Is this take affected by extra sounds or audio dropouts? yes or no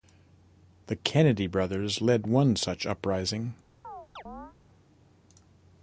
yes